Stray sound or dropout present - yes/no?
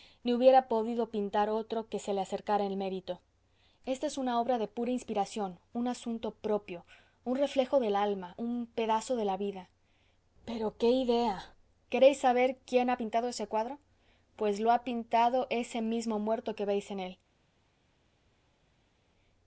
no